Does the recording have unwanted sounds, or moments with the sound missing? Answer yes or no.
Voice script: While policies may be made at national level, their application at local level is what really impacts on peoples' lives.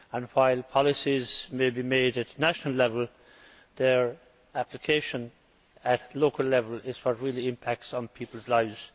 no